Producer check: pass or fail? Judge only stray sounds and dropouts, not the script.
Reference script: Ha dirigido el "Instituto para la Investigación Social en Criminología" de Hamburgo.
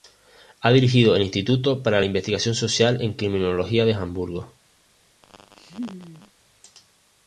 fail